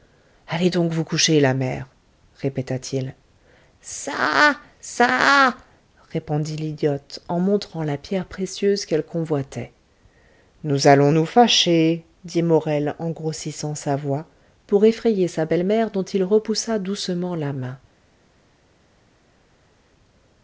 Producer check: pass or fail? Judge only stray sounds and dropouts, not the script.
pass